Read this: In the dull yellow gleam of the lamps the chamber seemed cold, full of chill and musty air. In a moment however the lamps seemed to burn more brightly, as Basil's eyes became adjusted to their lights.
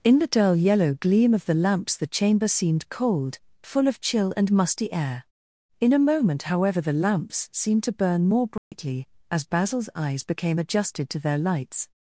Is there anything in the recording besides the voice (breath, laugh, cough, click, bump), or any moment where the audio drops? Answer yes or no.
yes